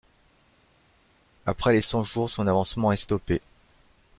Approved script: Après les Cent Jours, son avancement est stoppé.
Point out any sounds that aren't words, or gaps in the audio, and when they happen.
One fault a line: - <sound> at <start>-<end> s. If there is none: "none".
none